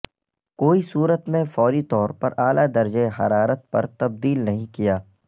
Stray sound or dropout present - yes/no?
no